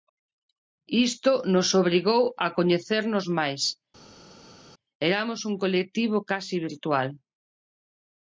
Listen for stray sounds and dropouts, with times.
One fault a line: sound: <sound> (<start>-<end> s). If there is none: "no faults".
no faults